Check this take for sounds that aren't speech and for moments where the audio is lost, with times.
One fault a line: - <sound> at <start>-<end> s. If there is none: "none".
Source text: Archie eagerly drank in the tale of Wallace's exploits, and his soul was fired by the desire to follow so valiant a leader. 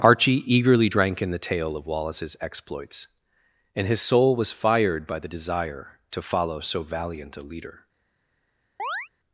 - chirp at 8.8-9.1 s